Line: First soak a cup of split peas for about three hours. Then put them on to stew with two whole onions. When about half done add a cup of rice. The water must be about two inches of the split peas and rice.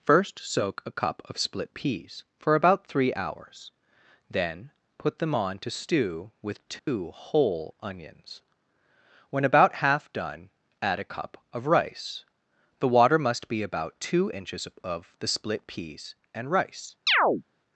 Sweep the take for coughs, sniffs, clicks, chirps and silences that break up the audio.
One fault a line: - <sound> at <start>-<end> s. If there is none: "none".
- dropout at 6.8-6.9 s
- chirp at 17.1-17.4 s